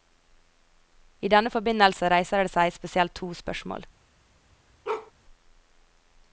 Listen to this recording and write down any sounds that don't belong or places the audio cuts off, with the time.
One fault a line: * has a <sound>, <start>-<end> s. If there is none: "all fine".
* has a bark, 4.8-5.1 s